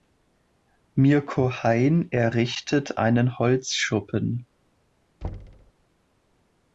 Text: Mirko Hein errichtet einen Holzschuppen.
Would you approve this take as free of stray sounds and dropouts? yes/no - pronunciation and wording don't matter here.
no